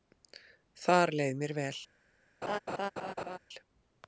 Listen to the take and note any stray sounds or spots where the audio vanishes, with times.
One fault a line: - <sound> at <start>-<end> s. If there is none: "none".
- laugh at 2.4-3.4 s